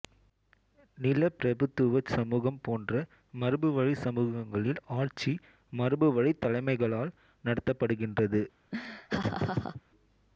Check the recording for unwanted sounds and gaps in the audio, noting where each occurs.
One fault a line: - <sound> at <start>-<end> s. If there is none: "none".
- laugh at 8.7-9.8 s